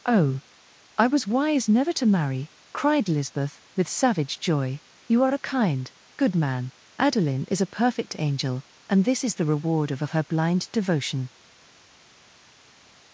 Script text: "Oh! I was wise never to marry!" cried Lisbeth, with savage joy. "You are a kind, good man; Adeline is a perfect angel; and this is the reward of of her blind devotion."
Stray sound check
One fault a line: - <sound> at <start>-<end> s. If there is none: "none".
none